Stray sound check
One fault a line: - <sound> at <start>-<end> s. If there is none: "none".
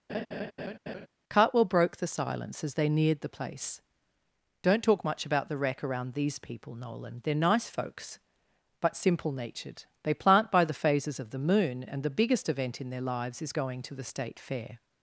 - laugh at 0.1-1.1 s